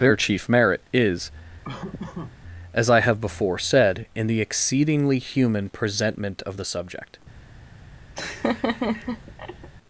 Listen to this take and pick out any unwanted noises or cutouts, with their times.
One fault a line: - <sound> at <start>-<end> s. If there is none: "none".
- laugh at 1.6-2.4 s
- laugh at 8.2-9.7 s